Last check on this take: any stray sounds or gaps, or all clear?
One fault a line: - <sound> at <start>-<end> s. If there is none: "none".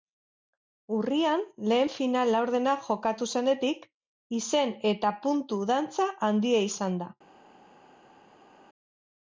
none